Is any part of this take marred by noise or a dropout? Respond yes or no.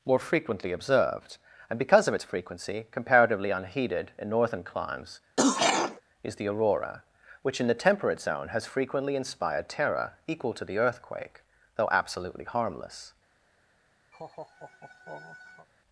yes